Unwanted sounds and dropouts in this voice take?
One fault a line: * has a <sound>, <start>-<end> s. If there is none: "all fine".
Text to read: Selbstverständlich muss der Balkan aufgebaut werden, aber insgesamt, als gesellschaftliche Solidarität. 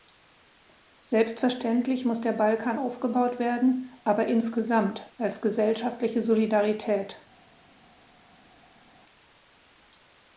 all fine